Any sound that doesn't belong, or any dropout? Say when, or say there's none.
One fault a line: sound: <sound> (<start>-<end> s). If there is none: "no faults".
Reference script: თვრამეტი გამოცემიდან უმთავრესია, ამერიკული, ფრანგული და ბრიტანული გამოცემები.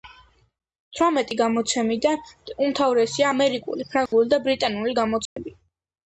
sound: dropout (4.1-4.1 s)
sound: dropout (5.3-5.4 s)